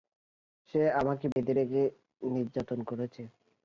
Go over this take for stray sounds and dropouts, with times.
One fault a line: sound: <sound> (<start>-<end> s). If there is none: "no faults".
sound: dropout (1.3-1.4 s)